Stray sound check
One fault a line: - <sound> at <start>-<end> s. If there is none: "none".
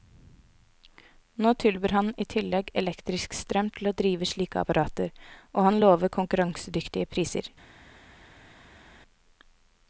none